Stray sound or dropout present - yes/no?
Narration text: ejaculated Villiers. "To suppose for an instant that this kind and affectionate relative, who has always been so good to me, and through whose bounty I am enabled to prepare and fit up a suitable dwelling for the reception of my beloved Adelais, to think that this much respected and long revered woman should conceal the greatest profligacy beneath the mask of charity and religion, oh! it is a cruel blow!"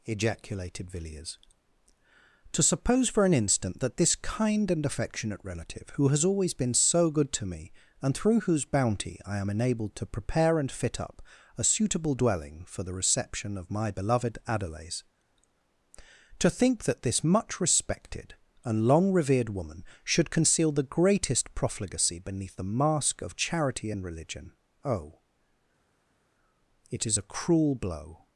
no